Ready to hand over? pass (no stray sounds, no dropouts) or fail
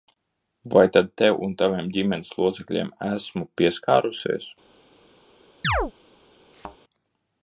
fail